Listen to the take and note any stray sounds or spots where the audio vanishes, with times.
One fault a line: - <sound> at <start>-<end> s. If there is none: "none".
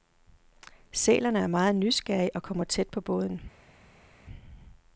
none